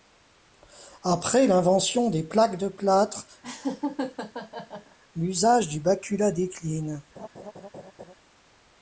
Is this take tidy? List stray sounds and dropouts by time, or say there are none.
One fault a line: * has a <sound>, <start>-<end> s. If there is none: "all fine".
* has a laugh, 3.4-5.0 s
* has a laugh, 7.2-8.1 s